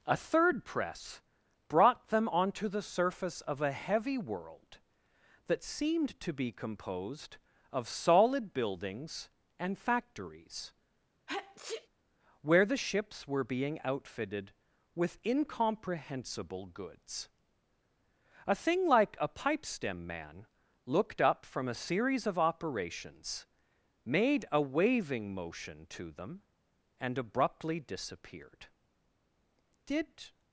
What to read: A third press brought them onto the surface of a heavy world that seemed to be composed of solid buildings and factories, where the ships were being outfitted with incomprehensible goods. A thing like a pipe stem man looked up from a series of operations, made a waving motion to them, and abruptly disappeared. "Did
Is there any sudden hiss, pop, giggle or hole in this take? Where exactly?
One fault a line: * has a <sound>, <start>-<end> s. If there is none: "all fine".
* has a sneeze, 11.3-11.9 s